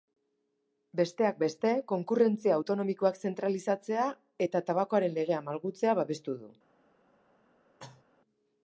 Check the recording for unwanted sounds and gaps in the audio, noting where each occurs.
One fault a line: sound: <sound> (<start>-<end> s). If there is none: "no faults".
sound: cough (7.8-8.0 s)